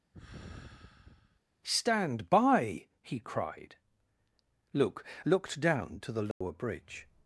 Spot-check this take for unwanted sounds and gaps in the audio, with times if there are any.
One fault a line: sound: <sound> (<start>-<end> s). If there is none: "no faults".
sound: sigh (0.1-1.4 s)
sound: dropout (6.3-6.4 s)